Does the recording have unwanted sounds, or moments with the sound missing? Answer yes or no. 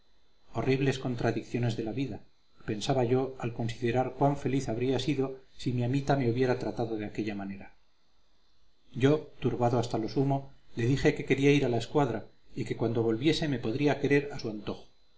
no